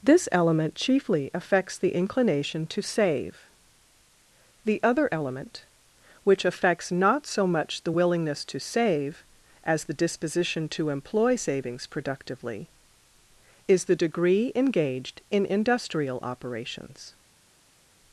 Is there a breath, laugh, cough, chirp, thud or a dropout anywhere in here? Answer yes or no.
no